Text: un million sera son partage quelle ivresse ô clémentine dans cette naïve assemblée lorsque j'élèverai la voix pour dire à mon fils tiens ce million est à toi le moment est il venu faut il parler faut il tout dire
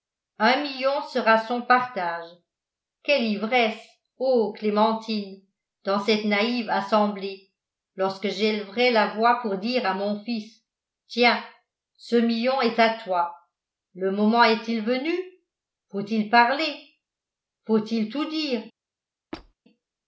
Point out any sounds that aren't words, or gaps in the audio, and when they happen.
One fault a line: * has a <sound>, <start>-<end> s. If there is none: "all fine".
* has a squeak, 19.3-19.5 s